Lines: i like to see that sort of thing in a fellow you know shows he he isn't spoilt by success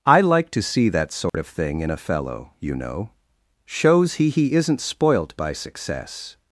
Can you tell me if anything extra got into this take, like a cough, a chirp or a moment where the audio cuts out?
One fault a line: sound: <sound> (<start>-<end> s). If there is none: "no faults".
sound: dropout (1.3-1.3 s)